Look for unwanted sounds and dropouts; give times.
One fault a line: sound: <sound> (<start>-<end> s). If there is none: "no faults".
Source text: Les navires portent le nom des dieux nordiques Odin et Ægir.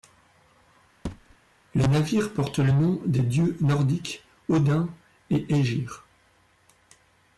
sound: thud (1.0-1.4 s)